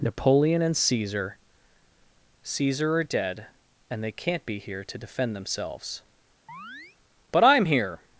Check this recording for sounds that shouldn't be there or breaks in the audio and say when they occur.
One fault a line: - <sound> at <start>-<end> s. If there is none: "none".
- chirp at 6.5-7.0 s